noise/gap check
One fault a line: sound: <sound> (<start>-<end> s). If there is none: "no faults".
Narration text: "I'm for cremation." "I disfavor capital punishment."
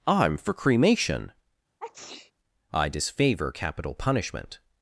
sound: sneeze (1.8-2.3 s)